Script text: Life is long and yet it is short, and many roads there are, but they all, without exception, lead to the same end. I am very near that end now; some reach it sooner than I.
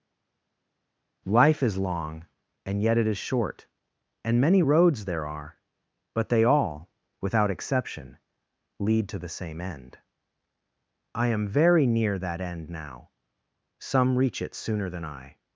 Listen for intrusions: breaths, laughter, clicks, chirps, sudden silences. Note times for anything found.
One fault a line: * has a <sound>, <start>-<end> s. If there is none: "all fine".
all fine